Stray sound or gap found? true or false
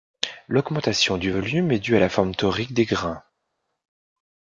false